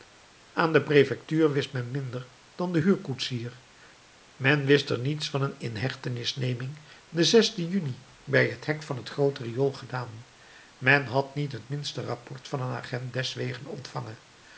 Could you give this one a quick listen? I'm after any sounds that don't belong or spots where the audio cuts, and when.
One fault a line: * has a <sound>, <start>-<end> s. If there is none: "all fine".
all fine